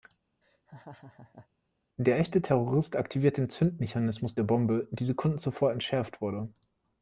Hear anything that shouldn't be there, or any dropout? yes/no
yes